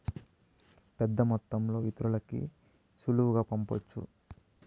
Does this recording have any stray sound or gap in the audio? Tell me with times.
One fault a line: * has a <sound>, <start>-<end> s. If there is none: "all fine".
all fine